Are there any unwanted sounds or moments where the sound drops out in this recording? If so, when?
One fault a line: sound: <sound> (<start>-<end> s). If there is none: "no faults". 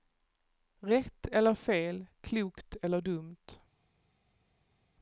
no faults